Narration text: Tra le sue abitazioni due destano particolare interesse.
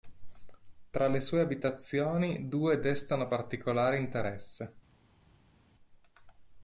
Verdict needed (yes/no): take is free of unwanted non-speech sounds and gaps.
yes